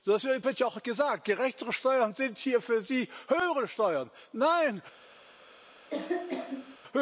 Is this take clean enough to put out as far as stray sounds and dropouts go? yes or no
no